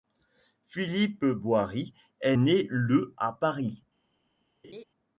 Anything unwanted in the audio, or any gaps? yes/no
yes